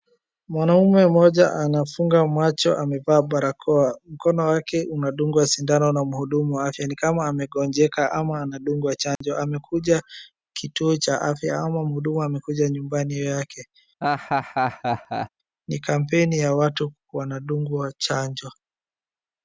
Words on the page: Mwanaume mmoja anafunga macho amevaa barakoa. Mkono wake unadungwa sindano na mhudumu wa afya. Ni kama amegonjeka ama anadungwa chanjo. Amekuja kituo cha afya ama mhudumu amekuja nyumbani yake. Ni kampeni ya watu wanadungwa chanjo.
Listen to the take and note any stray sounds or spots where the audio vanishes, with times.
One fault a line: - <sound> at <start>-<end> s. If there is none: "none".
- dropout at 9.2-9.2 s
- laugh at 14.0-15.3 s